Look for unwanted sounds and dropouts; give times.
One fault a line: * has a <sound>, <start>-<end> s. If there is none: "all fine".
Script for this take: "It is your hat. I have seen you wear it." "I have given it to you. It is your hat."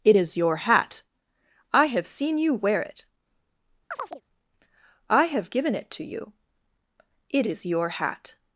* has a chirp, 3.9-4.2 s